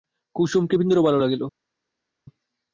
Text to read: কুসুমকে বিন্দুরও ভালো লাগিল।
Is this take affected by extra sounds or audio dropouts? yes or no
no